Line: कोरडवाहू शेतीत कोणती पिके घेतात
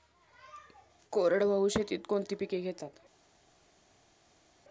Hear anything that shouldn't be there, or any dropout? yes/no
no